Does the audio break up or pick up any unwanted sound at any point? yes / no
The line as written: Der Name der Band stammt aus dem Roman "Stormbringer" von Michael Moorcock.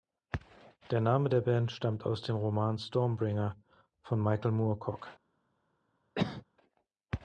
yes